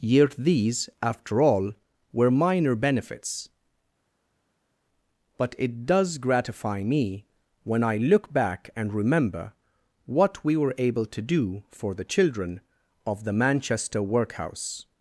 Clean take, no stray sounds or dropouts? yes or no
yes